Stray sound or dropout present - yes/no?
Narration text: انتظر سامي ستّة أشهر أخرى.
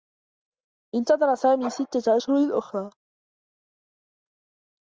no